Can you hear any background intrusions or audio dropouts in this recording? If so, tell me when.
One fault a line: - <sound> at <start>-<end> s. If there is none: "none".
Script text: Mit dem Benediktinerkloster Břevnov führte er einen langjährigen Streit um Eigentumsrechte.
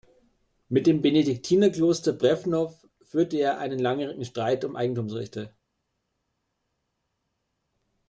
none